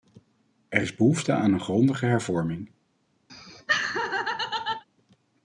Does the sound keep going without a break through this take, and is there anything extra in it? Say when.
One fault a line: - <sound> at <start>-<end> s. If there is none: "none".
- laugh at 3.3-4.8 s